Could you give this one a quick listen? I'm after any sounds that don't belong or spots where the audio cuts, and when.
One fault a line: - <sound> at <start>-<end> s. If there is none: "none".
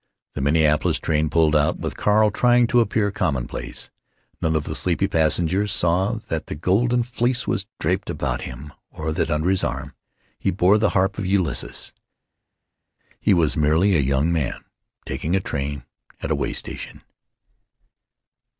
none